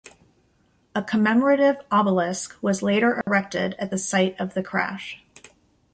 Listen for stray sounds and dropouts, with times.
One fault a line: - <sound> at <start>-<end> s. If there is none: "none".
- dropout at 3.2-3.3 s